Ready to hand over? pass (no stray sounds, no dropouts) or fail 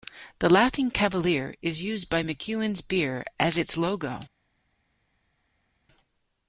pass